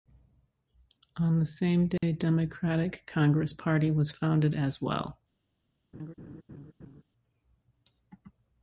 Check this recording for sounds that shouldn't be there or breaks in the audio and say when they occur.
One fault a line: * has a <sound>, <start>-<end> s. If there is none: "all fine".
* has a dropout, 2.0-2.0 s
* has a laugh, 5.9-7.0 s